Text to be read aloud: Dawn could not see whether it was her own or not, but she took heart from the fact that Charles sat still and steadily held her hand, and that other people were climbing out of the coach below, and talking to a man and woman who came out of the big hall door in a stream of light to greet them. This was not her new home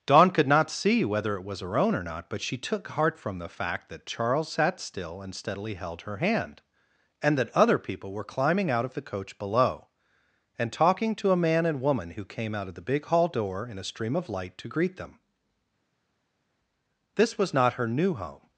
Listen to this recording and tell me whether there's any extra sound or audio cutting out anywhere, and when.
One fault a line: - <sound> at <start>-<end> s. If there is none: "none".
none